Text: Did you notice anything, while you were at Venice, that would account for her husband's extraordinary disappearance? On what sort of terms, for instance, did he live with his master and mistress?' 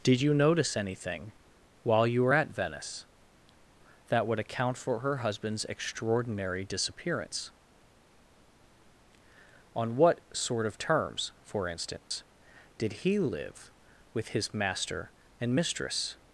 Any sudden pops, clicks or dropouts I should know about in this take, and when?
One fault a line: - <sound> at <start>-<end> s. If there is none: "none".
- dropout at 12.0-12.1 s